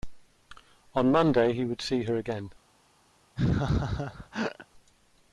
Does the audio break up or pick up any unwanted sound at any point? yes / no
yes